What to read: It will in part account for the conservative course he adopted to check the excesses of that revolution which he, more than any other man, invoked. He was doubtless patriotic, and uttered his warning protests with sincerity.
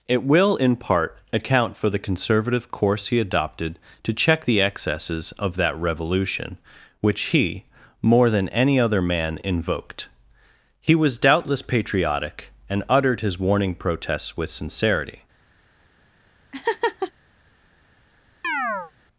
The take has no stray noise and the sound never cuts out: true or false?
false